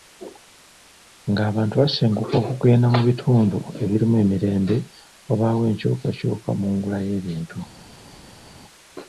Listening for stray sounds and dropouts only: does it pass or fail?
pass